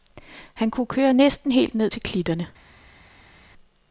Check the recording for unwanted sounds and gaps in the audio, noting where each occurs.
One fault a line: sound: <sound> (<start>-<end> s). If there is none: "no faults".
no faults